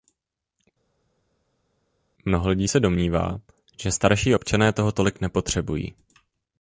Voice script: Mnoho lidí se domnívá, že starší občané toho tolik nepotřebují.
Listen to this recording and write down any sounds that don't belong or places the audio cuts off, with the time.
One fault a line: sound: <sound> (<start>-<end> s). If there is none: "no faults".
no faults